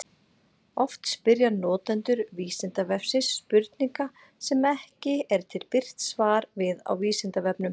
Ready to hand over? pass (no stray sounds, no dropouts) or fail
pass